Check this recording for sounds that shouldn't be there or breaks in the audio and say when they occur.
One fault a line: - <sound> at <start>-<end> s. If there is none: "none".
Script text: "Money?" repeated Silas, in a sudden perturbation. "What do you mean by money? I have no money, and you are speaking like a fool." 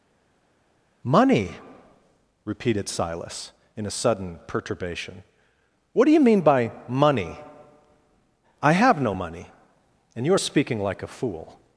none